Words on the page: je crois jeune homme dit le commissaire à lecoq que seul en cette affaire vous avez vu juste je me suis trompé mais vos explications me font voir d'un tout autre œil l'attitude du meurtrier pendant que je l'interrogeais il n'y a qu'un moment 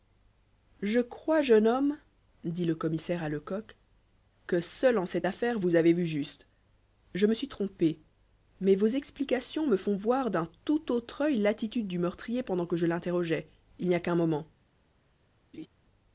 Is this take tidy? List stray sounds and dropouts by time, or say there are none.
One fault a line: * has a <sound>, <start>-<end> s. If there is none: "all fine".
* has a laugh, 15.5-15.7 s